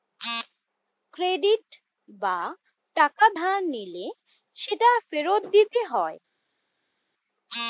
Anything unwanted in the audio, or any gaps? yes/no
no